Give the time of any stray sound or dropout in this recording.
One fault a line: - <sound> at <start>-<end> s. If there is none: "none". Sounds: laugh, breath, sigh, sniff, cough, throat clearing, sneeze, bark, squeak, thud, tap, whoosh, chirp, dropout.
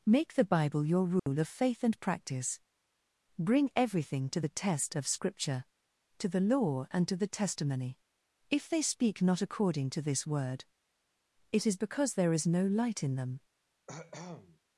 - dropout at 1.2-1.3 s
- cough at 13.9-14.6 s